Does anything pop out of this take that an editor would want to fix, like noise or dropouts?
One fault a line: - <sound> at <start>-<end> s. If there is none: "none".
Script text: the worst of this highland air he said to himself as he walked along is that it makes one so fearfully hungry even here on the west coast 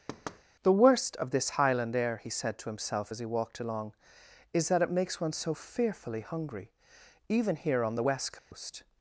- thud at 0.1-0.4 s
- dropout at 8.4-8.5 s